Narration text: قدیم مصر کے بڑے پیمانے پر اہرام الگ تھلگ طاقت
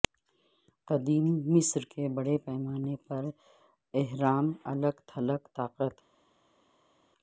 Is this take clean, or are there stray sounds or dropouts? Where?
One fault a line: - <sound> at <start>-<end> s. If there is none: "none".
none